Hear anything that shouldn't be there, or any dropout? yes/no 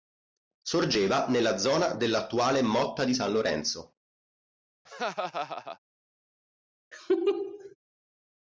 yes